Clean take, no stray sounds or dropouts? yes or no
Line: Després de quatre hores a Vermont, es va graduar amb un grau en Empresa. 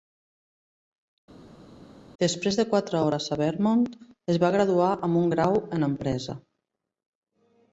yes